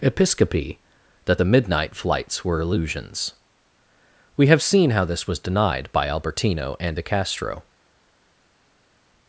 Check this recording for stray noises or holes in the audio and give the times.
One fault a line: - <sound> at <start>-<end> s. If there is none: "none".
none